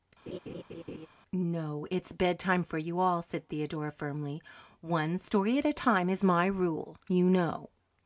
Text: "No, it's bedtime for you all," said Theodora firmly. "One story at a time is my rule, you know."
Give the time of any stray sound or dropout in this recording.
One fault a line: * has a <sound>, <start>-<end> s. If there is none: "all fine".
* has a laugh, 0.3-1.1 s